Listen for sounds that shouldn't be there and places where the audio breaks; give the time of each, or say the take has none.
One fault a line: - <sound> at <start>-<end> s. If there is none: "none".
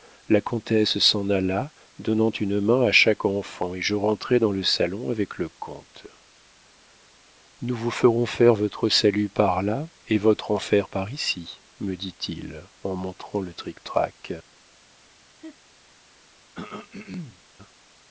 - laugh at 15.4-15.6 s
- throat clearing at 16.5-17.4 s